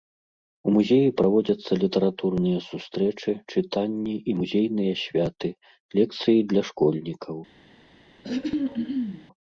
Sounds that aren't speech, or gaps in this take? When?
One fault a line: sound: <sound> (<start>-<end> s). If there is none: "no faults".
sound: throat clearing (8.2-9.3 s)